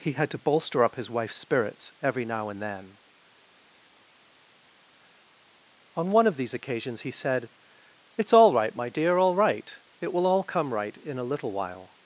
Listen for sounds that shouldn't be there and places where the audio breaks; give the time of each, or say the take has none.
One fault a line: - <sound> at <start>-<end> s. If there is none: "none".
none